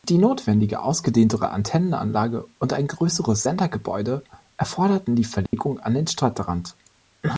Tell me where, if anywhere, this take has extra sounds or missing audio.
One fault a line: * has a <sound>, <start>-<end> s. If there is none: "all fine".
* has a dropout, 5.5-5.5 s